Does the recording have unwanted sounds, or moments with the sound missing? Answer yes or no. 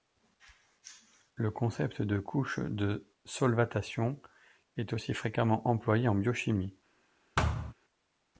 yes